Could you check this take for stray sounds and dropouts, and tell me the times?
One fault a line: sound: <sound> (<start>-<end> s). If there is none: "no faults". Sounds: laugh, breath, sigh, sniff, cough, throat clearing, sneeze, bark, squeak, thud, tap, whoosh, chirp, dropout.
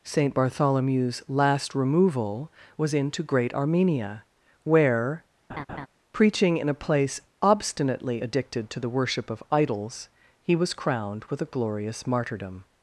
sound: laugh (5.5-5.9 s)